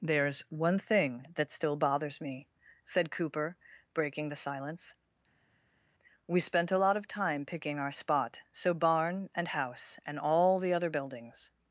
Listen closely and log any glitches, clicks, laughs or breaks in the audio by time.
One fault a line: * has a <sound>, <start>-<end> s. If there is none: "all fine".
all fine